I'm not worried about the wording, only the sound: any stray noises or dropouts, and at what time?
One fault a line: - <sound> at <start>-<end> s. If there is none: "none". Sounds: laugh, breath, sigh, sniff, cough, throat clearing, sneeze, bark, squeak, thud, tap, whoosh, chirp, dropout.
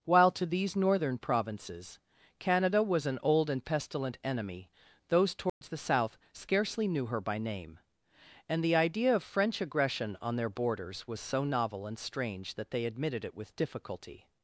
- dropout at 5.5-5.6 s